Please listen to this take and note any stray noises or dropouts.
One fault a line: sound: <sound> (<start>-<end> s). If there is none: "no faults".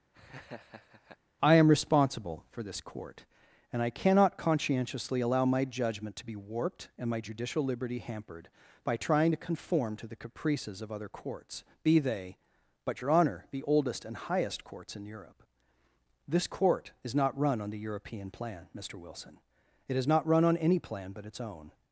sound: laugh (0.1-1.2 s)